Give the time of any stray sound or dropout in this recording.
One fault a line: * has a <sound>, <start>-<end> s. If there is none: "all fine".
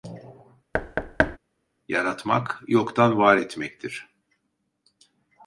* has a thud, 0.7-1.4 s